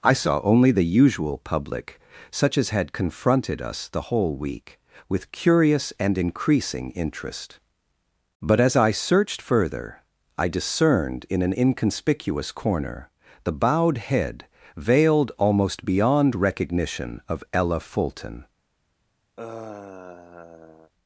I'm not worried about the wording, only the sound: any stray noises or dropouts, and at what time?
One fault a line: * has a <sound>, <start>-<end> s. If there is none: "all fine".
* has a sigh, 19.4-20.9 s